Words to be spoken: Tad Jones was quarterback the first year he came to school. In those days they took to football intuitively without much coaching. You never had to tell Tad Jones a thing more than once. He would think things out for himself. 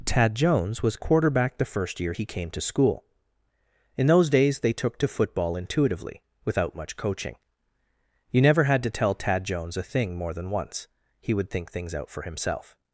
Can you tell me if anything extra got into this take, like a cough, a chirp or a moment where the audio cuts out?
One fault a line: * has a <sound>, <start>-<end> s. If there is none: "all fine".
all fine